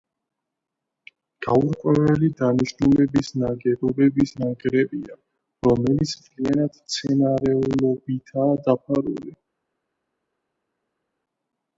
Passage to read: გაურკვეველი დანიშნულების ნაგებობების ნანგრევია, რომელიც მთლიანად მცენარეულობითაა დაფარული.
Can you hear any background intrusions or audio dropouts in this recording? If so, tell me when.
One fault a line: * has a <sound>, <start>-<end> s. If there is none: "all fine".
all fine